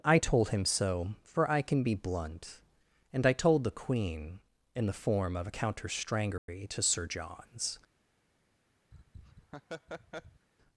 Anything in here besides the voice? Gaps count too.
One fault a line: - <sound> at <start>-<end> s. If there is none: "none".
- dropout at 6.4-6.5 s
- laugh at 8.9-10.5 s